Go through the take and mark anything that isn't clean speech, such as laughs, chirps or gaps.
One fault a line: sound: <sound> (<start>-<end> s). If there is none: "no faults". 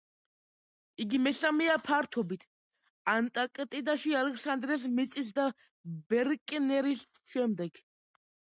no faults